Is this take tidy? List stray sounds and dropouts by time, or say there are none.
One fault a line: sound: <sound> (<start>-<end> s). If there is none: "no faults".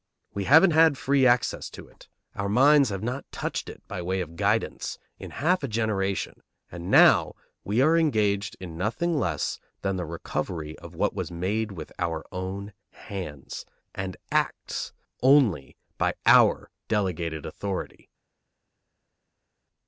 no faults